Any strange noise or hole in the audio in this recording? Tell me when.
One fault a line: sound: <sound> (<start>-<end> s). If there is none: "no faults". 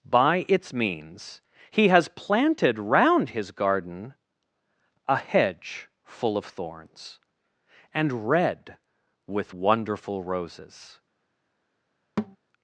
sound: thud (12.2-12.4 s)